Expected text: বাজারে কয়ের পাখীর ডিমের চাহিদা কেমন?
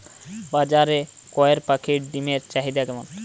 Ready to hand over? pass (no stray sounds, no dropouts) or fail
pass